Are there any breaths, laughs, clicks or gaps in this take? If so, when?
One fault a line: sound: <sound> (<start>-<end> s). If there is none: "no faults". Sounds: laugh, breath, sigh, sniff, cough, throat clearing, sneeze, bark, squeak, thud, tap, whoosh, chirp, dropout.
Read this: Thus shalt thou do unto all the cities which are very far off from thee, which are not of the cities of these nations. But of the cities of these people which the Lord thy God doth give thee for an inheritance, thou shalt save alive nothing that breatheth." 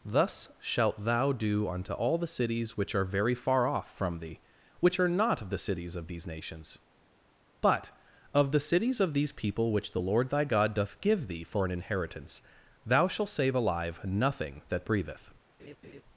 sound: laugh (15.6-16.0 s)